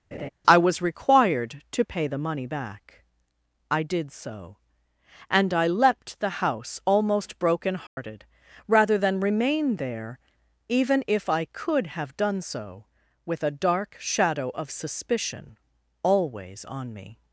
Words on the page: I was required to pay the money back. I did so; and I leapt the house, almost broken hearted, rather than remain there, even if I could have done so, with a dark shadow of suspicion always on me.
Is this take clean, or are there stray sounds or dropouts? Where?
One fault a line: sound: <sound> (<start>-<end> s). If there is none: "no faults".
sound: laugh (0.1-0.3 s)
sound: dropout (7.9-8.0 s)